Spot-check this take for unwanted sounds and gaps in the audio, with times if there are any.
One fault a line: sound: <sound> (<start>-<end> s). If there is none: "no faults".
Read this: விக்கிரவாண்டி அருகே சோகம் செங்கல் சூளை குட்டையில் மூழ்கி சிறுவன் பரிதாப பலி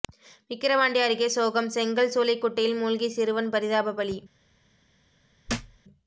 sound: thud (5.5-5.8 s)